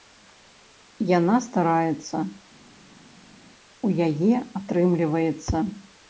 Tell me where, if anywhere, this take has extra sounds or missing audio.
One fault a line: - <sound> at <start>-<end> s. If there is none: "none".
none